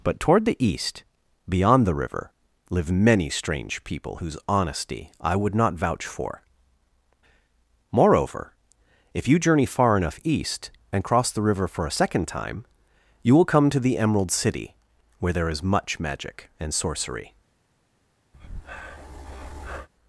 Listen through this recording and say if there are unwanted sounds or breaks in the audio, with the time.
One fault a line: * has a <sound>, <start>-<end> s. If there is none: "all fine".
* has a breath, 18.3-19.9 s